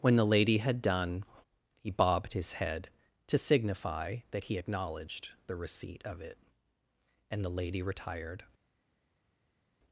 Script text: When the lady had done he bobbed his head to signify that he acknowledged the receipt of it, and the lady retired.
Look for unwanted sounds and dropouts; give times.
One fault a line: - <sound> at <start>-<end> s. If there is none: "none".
none